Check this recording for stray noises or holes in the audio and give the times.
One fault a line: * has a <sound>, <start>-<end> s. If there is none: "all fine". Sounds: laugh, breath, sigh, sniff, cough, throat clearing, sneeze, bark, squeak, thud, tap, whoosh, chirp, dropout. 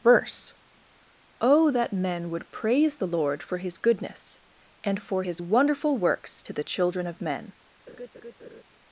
* has a laugh, 7.9-8.6 s